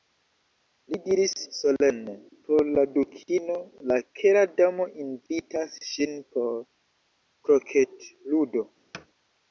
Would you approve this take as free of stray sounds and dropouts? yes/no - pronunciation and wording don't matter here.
no